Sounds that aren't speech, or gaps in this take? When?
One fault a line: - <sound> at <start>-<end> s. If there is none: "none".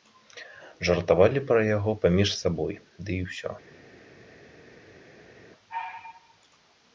none